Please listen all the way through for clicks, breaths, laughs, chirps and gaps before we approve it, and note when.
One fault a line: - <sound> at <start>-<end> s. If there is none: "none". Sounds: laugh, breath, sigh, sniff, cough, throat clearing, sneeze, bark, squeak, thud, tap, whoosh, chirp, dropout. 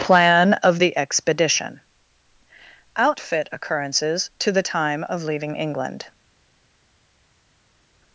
none